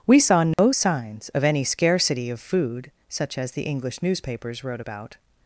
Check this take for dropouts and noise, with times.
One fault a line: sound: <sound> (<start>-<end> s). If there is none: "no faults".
sound: dropout (0.5-0.6 s)